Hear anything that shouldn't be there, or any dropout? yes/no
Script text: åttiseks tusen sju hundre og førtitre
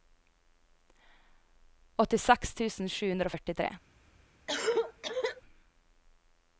yes